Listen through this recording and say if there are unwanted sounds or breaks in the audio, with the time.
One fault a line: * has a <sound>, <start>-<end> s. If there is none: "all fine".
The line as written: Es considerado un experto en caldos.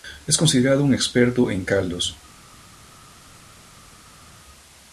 all fine